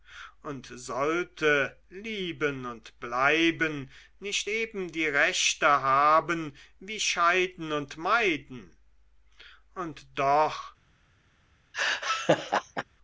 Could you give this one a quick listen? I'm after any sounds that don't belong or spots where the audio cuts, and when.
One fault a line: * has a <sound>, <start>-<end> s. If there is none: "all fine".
* has a laugh, 11.7-12.8 s